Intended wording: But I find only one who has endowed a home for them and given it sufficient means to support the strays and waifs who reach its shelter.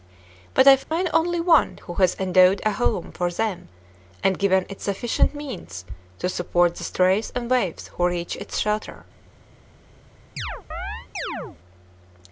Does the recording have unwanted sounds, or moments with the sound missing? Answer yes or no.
yes